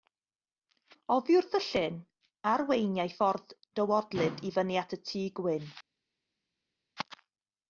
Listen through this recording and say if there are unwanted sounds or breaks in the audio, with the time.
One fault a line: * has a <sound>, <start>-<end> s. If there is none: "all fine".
all fine